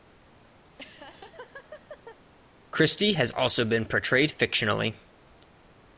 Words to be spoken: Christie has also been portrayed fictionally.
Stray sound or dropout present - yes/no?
yes